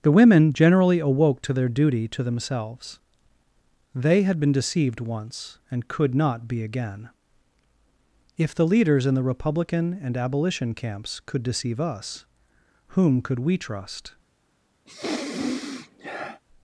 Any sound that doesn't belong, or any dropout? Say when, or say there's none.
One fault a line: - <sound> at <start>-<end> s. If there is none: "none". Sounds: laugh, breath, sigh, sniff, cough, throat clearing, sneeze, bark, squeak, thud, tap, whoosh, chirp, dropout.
- sniff at 14.9-16.4 s